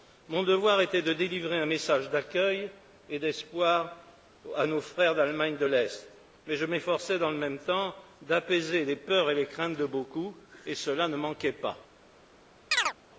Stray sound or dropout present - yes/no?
yes